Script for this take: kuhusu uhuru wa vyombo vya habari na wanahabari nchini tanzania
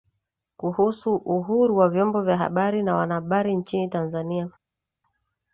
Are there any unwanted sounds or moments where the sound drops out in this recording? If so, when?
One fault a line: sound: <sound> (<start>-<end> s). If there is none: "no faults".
no faults